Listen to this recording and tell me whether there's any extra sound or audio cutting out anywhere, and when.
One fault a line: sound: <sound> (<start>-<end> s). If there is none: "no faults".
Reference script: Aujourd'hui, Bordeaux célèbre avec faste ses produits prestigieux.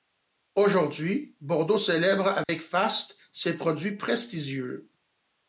sound: dropout (2.4-2.5 s)